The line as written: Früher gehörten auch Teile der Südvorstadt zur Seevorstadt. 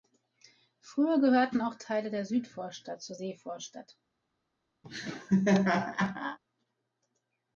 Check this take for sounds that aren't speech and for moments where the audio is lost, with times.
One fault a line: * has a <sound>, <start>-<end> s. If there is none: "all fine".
* has a laugh, 4.8-6.4 s